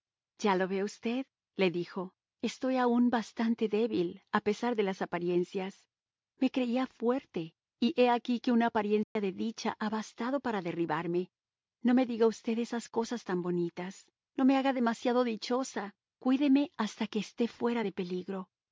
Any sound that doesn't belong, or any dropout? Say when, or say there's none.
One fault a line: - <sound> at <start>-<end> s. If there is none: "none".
- dropout at 9.0-9.2 s